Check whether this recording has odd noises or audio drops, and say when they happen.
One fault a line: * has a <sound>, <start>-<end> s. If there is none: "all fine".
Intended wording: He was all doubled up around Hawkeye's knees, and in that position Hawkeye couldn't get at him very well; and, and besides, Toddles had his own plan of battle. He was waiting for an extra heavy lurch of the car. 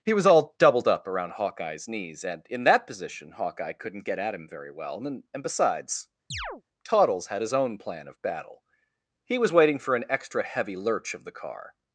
* has a chirp, 6.3-6.6 s